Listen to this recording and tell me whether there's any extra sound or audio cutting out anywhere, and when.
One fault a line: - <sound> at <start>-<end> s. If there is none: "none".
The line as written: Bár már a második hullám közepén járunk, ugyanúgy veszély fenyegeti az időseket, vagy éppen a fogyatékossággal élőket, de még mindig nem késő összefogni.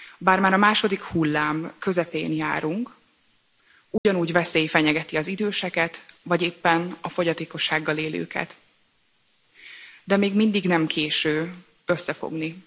- dropout at 4.0-4.1 s